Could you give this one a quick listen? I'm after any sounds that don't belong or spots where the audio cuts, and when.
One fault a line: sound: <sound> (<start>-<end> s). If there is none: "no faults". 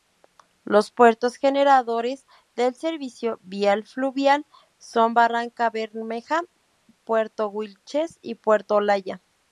no faults